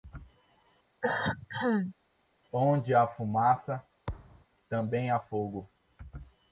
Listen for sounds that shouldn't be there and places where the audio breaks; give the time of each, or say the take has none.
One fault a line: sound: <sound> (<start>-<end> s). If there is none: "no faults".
sound: cough (1.0-2.0 s)
sound: thud (4.1-4.5 s)